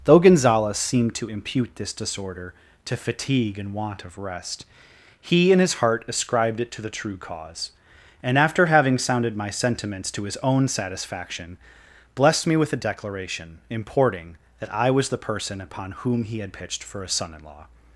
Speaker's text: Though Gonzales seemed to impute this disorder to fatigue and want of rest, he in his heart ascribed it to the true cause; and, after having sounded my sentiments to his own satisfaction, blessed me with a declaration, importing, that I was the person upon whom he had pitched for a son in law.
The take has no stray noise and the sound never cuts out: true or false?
true